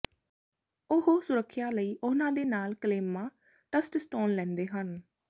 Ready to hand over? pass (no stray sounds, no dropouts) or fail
pass